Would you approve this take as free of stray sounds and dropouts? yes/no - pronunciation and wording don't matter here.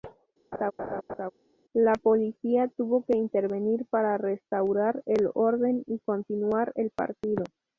no